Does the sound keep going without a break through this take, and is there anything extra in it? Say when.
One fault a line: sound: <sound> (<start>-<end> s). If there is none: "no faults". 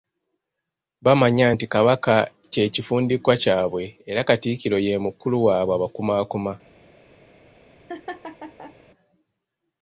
sound: laugh (7.9-8.7 s)